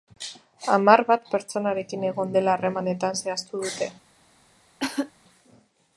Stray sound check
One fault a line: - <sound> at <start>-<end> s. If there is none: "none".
- cough at 4.8-5.1 s